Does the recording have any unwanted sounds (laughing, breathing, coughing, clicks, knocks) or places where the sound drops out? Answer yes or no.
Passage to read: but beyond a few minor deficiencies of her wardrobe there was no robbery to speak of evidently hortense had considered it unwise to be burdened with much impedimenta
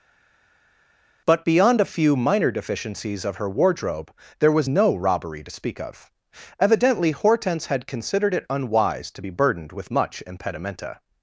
no